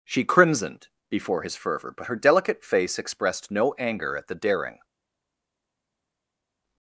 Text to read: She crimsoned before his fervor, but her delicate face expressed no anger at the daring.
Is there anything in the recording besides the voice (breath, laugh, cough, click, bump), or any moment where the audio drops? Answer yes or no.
no